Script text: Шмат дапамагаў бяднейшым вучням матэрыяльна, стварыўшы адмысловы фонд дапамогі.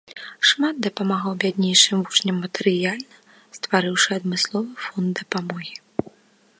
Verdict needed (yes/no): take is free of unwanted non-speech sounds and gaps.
yes